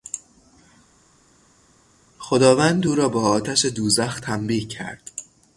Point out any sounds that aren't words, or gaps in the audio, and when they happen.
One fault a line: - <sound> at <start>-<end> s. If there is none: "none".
none